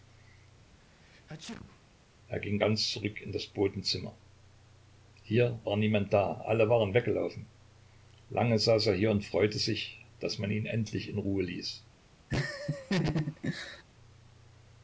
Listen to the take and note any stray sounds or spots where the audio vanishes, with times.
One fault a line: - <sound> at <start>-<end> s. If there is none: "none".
- sneeze at 0.8-1.8 s
- laugh at 12.3-13.8 s